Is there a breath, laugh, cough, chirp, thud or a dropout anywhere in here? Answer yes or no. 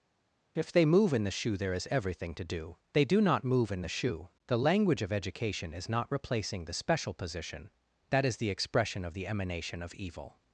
no